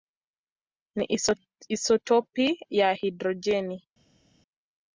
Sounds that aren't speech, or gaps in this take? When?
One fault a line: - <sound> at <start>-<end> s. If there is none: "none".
none